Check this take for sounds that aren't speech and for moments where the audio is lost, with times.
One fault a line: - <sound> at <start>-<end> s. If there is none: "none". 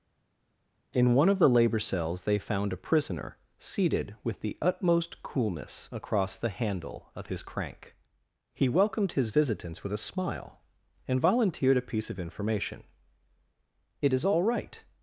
none